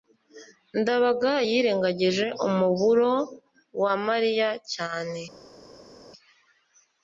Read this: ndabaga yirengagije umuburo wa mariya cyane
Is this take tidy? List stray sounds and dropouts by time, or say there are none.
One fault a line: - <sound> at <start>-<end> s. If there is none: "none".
none